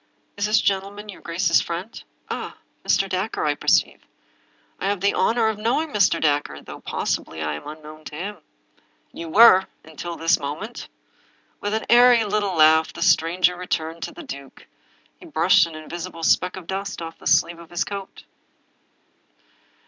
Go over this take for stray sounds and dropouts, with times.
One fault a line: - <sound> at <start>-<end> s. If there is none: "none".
none